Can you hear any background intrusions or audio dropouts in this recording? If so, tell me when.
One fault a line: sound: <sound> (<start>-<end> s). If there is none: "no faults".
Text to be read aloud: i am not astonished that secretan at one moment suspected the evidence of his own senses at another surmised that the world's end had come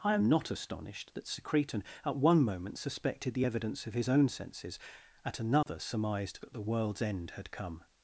sound: dropout (5.6-5.7 s)